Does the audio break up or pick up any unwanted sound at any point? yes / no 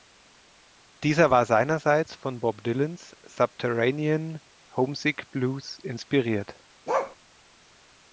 yes